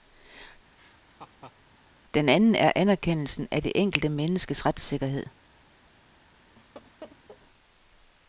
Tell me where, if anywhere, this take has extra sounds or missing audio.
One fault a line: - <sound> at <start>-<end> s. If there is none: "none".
- laugh at 0.8-1.6 s
- laugh at 6.6-7.4 s